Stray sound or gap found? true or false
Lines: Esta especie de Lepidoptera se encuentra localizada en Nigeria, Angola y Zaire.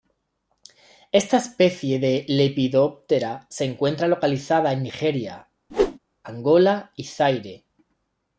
true